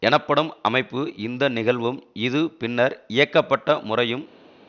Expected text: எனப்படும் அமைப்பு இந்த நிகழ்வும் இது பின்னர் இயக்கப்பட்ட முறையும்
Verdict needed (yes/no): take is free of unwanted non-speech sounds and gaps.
yes